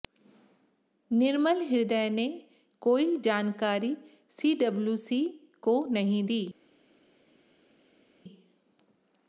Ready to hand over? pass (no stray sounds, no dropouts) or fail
pass